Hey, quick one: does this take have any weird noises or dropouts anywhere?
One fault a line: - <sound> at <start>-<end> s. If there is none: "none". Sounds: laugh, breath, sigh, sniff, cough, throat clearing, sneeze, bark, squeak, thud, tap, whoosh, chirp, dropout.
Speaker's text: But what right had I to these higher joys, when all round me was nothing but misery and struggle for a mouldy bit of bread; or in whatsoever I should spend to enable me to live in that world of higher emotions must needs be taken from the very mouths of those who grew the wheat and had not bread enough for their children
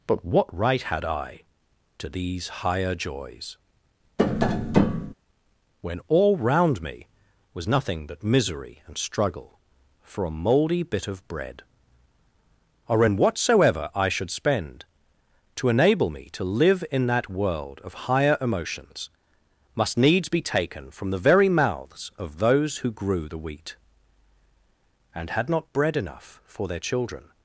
- tap at 4.2-5.1 s